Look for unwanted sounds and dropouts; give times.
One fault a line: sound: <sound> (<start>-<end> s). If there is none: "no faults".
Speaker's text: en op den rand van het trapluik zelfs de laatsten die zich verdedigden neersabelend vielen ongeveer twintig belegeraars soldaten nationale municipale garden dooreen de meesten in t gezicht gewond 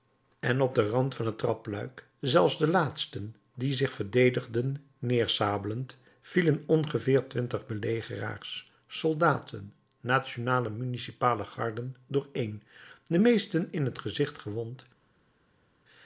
no faults